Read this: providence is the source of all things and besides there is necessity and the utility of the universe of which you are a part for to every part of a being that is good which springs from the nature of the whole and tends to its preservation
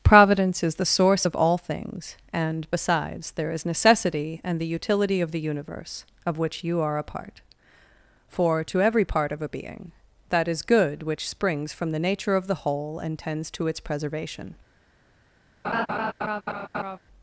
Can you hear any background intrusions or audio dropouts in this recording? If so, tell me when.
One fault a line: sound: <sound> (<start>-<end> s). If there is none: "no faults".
sound: laugh (15.6-17.0 s)